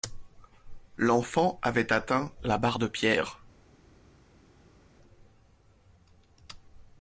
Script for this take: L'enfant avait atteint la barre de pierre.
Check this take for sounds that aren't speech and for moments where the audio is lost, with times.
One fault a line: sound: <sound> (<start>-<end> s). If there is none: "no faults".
no faults